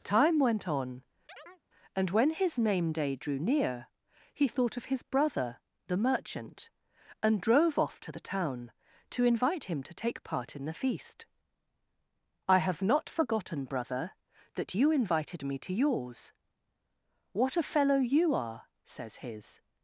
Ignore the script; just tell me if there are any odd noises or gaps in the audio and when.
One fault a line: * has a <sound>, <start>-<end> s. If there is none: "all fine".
* has a chirp, 1.3-1.6 s